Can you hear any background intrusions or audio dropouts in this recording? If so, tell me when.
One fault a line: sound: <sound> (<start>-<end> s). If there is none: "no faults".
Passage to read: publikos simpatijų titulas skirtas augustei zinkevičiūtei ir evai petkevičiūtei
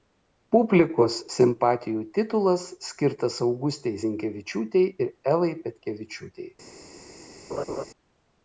sound: laugh (7.5-7.9 s)